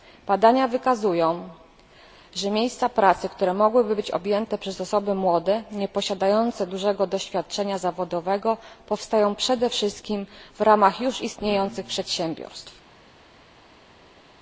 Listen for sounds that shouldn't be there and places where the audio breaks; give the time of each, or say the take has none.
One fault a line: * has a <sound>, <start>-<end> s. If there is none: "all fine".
all fine